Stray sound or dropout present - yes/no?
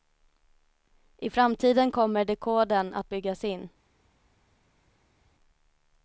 no